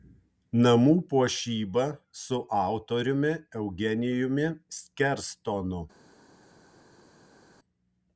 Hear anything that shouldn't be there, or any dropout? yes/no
no